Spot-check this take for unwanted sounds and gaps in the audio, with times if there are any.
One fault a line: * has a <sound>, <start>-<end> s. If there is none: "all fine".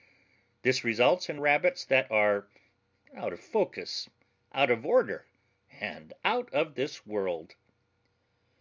all fine